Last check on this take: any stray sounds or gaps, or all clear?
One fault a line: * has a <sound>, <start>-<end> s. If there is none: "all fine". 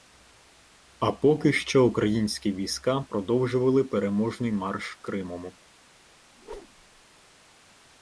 * has a whoosh, 6.4-7.0 s